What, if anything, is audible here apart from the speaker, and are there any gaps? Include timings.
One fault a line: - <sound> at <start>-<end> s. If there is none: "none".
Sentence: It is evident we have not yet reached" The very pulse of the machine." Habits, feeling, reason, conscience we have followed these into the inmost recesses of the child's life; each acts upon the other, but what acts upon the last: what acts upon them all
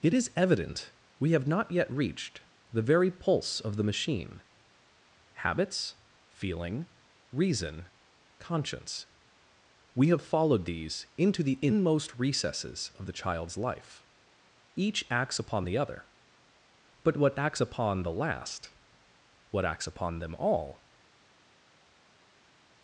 none